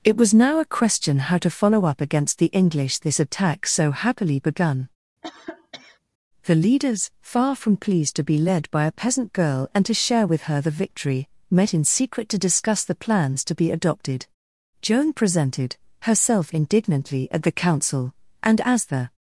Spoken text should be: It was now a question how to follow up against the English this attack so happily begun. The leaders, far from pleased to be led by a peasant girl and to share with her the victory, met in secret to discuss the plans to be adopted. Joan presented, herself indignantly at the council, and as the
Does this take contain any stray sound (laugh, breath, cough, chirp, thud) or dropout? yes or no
yes